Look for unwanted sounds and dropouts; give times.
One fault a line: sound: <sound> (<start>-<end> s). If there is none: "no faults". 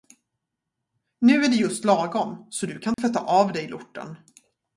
sound: dropout (2.9-3.0 s)